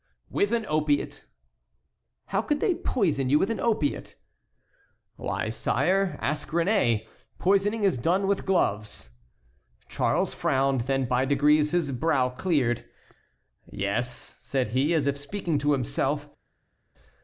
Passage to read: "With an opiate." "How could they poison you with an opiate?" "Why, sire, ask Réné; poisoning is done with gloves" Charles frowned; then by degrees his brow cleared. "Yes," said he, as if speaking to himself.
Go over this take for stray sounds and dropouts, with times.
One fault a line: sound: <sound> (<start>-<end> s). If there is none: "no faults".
no faults